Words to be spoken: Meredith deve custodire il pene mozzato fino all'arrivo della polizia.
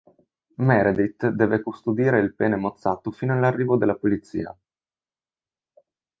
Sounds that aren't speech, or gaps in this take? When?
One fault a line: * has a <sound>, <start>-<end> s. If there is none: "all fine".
all fine